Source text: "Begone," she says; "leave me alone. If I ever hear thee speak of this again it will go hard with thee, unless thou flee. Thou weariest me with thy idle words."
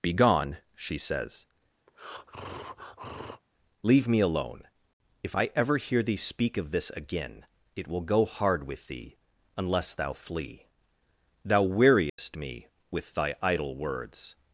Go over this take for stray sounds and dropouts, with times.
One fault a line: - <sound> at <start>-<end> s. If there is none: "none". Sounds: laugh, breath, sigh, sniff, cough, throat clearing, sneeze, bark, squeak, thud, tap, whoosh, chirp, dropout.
- breath at 1.9-3.4 s
- dropout at 12.1-12.2 s